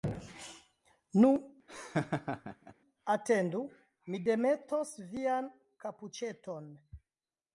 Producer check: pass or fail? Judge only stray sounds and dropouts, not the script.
fail